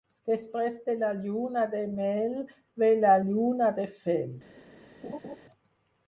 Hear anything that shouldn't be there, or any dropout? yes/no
yes